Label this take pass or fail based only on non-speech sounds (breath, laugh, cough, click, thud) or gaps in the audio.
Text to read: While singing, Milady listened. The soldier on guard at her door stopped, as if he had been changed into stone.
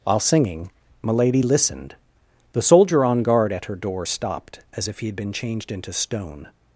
pass